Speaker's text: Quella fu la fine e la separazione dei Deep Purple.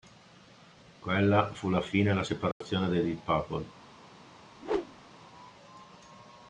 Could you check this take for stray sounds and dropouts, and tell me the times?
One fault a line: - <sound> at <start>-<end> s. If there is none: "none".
- dropout at 2.5-2.6 s
- whoosh at 4.5-5.1 s